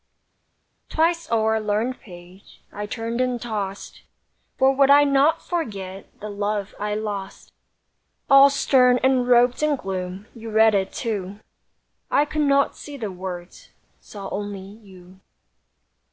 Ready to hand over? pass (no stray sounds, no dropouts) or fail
pass